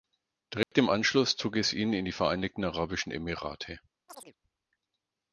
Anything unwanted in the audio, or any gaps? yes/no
yes